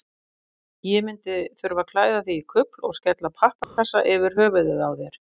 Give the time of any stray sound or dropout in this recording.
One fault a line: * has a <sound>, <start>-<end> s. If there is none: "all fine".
* has a dropout, 3.6-3.8 s